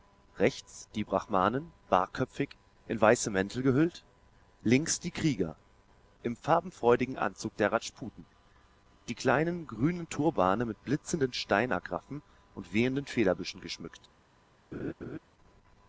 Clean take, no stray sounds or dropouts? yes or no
no